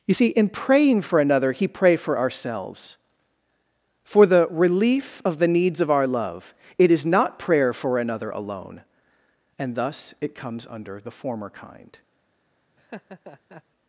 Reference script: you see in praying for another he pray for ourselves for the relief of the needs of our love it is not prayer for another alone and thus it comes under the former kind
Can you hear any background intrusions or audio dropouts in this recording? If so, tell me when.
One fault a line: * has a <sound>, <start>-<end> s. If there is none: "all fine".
* has a laugh, 12.8-13.6 s